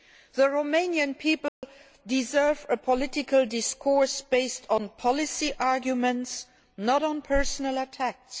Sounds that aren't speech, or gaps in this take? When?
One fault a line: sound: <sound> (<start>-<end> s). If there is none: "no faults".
sound: dropout (1.5-1.6 s)